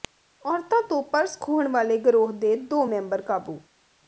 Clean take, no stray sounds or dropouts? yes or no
yes